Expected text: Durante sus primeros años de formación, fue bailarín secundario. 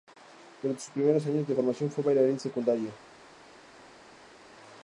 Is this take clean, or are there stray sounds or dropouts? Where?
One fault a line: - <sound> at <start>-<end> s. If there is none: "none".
none